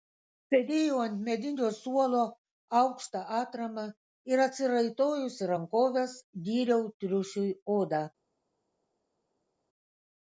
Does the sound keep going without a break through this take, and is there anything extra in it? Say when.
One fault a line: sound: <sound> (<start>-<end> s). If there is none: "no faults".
no faults